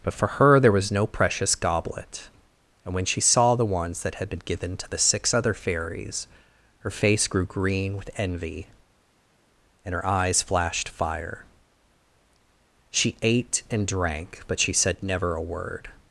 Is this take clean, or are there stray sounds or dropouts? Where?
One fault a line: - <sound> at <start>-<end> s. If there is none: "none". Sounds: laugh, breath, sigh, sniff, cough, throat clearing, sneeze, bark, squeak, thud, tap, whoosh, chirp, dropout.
none